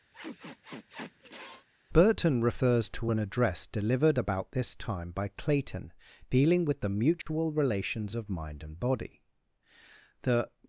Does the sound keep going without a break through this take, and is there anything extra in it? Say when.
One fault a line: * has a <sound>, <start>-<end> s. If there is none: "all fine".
* has a sniff, 0.1-1.7 s
* has a dropout, 7.2-7.3 s